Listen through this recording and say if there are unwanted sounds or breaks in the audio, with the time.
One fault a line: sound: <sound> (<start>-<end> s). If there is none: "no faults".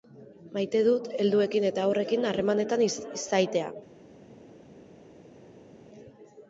no faults